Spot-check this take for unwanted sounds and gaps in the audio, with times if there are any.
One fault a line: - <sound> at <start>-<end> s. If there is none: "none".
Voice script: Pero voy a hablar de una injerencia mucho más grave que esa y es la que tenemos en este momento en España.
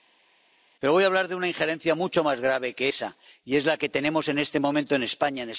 none